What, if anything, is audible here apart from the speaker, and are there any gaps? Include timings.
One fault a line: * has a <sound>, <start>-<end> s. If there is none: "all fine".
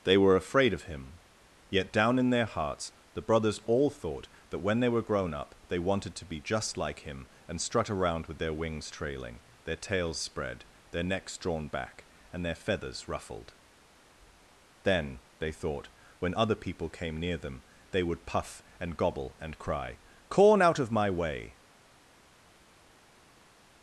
all fine